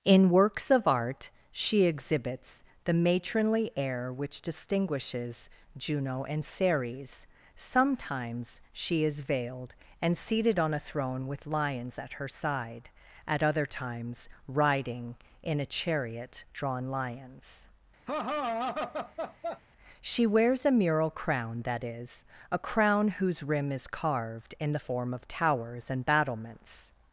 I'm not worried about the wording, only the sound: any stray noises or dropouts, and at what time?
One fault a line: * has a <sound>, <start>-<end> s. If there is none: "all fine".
* has a laugh, 18.1-19.6 s